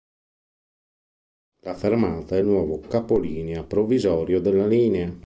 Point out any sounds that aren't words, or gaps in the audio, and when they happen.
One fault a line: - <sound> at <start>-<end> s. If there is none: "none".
none